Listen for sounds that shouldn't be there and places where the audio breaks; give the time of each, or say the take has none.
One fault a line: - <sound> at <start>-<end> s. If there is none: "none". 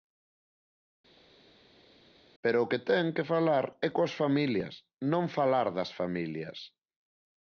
none